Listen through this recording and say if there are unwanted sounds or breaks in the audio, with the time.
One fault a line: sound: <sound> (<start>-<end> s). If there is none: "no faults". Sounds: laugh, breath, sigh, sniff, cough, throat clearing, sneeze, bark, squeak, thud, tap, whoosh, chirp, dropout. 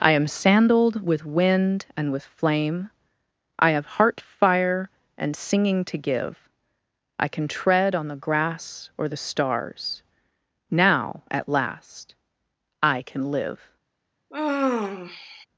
sound: sigh (14.3-15.5 s)